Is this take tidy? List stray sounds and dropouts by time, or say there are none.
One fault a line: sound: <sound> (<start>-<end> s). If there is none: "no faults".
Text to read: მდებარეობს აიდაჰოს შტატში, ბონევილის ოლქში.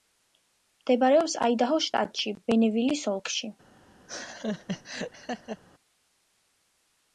sound: laugh (4.1-5.6 s)